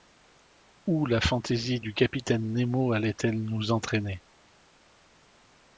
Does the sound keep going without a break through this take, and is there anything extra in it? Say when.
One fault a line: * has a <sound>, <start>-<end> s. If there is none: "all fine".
all fine